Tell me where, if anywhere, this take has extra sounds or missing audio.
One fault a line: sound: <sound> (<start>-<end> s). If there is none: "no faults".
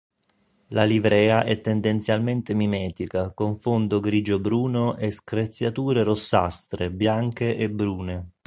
no faults